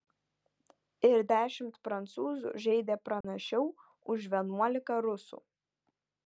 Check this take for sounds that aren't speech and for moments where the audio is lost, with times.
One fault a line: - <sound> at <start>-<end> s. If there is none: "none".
- dropout at 3.2-3.2 s